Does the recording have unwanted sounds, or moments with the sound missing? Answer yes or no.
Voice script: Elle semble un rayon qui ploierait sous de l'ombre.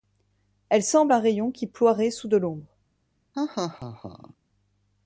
yes